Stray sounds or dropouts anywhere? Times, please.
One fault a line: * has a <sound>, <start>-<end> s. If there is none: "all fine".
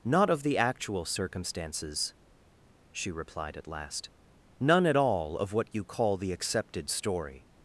all fine